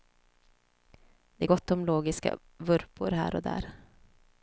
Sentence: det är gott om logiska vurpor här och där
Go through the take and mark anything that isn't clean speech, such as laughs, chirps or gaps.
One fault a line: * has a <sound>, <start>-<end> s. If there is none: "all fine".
all fine